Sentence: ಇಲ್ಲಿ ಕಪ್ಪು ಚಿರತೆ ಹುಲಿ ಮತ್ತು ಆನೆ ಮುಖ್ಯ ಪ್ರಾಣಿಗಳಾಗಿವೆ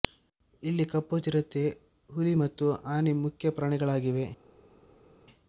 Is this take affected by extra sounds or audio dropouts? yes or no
no